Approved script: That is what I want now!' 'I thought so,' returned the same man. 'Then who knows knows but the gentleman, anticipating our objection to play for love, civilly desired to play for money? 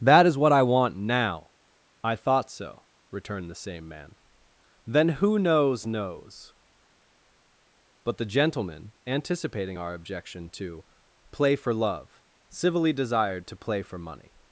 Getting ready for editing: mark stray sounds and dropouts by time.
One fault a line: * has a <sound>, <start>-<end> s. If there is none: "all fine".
all fine